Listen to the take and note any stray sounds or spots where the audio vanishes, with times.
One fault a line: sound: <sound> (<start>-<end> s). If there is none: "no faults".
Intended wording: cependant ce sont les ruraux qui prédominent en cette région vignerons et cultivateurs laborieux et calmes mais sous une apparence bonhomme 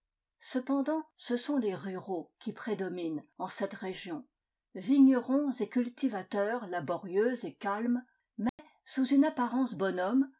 sound: dropout (8.5-8.6 s)